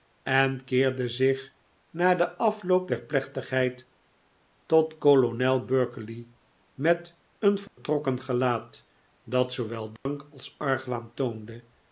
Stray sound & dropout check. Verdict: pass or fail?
fail